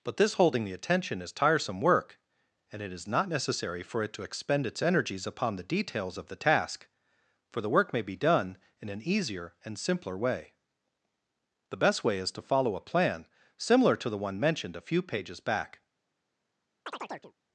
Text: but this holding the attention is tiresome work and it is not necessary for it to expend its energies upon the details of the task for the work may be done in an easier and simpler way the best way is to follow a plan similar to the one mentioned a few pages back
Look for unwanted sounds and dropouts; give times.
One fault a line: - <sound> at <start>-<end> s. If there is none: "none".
- chirp at 16.9-17.3 s